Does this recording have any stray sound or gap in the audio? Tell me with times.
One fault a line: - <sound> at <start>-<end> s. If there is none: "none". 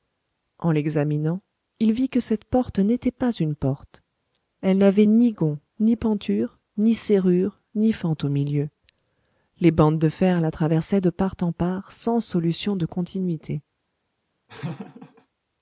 - laugh at 14.5-15.3 s